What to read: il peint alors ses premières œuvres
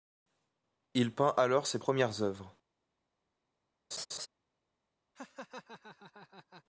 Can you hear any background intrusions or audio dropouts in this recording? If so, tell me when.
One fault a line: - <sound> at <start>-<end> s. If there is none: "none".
- laugh at 3.9-4.3 s
- laugh at 5.1-6.6 s